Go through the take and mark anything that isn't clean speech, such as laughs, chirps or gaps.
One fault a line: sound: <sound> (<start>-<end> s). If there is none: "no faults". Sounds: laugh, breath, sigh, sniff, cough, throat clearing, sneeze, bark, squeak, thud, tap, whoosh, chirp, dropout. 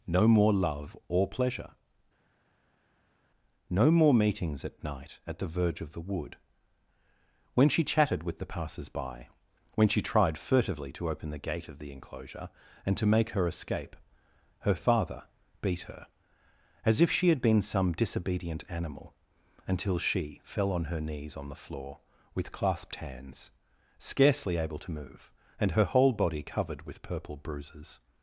no faults